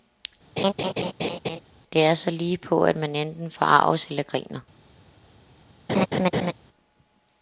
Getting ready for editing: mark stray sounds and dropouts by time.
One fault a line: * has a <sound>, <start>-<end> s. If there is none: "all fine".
* has a laugh, 0.6-1.6 s
* has a laugh, 5.9-6.5 s